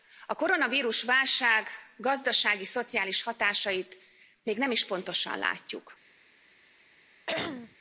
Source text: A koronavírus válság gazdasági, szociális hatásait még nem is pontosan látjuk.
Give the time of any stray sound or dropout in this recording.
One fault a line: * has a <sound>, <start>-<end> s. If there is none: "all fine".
* has a throat clearing, 7.3-7.8 s